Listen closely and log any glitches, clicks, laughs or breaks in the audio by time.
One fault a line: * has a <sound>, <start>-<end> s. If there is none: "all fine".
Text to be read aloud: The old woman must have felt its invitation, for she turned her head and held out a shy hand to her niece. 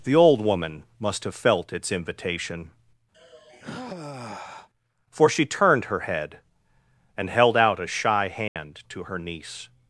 * has a sigh, 3.1-4.7 s
* has a dropout, 8.5-8.6 s